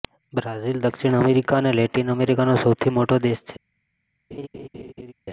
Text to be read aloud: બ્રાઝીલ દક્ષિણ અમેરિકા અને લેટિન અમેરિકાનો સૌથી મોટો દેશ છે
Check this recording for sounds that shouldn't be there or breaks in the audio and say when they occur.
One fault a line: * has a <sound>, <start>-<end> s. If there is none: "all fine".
* has a laugh, 4.3-5.1 s